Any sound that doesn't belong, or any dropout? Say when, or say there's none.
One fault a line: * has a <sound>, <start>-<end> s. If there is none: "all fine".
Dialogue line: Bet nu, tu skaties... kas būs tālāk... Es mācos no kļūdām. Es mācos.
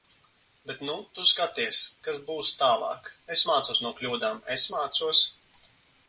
all fine